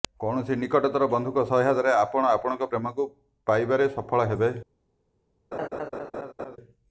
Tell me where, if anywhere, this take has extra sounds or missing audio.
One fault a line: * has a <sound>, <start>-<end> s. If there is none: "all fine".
* has a laugh, 5.5-6.6 s